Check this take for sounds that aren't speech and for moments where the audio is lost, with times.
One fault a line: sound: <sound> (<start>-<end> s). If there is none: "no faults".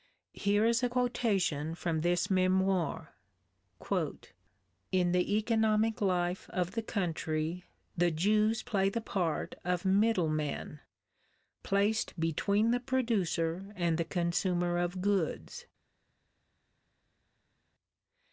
no faults